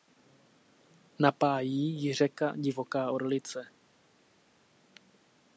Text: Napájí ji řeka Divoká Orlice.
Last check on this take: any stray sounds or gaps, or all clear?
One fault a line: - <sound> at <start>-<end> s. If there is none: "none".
none